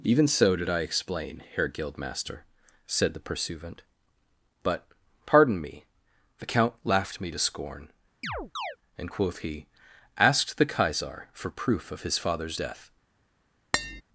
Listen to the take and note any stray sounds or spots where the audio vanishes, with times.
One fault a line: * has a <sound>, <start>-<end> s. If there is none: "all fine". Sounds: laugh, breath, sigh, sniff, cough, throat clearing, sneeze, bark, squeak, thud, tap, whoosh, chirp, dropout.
* has a chirp, 8.2-8.8 s
* has a tap, 13.7-14.0 s